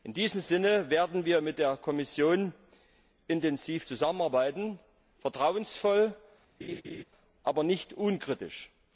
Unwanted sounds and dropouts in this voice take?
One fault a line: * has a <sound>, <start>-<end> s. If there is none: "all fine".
* has a laugh, 6.6-7.0 s